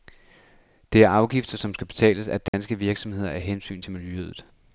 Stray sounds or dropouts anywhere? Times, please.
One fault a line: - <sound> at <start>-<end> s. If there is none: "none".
- dropout at 2.5-2.5 s